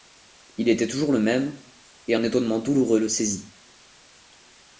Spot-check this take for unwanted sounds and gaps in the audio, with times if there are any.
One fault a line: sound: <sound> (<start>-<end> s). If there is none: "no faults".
no faults